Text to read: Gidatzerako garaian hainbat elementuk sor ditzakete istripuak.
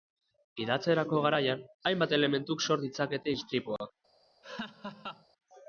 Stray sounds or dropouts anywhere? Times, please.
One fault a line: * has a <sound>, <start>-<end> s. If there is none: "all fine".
* has a laugh, 4.4-5.3 s